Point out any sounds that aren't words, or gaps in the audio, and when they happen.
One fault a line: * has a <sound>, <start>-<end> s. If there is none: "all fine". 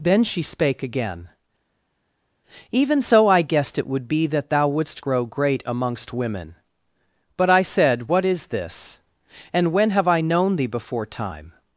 all fine